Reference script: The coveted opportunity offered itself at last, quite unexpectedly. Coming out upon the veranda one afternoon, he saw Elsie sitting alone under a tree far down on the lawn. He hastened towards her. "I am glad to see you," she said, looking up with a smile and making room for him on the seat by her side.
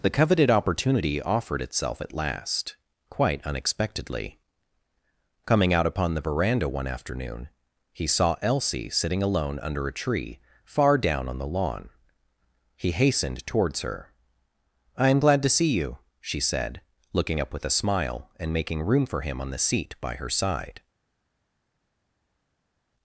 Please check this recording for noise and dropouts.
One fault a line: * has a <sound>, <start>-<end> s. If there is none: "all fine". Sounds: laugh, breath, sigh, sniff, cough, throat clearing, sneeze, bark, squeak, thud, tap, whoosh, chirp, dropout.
all fine